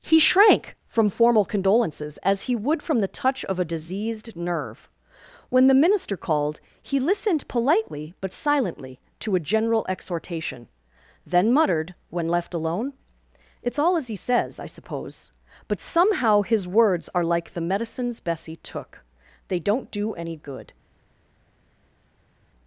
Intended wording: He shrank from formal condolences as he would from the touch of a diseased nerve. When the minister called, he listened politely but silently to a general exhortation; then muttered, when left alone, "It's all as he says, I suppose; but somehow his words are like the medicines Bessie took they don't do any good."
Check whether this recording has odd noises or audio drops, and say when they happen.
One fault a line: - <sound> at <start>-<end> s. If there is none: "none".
none